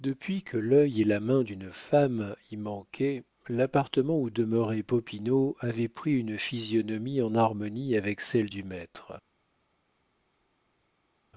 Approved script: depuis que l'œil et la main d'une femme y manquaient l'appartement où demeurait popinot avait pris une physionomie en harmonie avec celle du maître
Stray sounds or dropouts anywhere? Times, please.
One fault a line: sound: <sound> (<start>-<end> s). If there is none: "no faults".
no faults